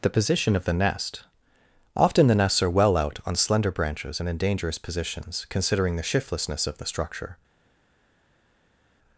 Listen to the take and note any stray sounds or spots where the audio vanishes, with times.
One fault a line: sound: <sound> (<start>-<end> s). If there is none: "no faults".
no faults